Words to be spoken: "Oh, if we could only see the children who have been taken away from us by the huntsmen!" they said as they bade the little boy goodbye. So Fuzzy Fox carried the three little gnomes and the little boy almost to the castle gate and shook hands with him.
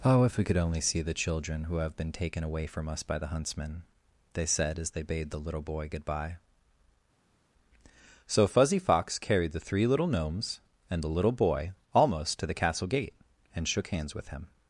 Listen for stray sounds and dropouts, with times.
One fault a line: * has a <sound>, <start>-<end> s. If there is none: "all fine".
all fine